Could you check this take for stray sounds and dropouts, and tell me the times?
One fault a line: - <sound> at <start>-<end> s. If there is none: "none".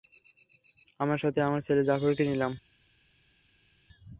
none